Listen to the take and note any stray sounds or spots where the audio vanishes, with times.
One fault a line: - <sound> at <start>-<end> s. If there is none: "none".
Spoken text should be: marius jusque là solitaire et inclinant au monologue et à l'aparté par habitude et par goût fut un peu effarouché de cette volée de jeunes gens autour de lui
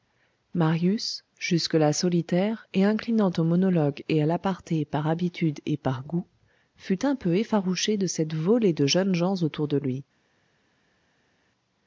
none